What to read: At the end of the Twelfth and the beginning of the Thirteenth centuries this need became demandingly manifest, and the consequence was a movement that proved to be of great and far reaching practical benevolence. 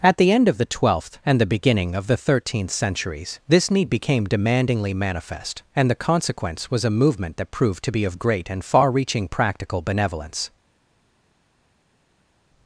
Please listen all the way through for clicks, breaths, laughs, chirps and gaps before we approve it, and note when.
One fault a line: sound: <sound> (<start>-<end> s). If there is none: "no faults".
no faults